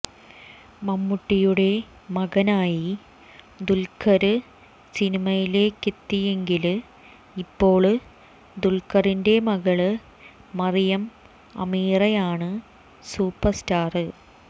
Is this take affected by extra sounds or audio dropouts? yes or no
no